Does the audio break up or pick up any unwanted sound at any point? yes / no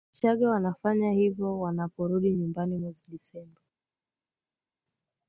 no